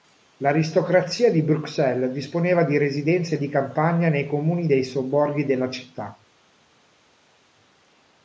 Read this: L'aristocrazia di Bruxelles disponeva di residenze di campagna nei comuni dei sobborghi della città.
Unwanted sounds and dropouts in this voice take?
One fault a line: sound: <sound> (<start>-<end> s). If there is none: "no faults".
no faults